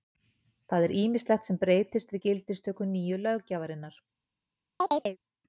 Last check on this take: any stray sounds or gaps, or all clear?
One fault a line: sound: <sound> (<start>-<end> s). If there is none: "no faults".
sound: chirp (4.8-5.2 s)